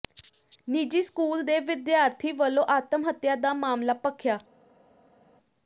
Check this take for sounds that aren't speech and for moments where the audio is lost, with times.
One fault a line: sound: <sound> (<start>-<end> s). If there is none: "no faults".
no faults